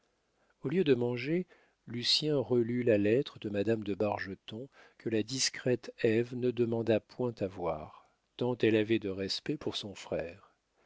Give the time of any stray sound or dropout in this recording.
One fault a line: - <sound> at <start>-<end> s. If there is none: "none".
none